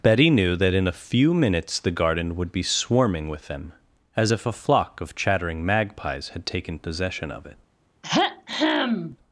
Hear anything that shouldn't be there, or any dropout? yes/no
yes